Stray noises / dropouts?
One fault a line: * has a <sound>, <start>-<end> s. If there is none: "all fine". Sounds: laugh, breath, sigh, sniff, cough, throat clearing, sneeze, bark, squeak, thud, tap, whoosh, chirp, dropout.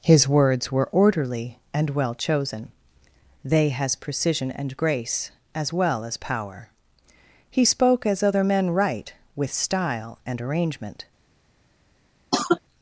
* has a cough, 12.3-12.6 s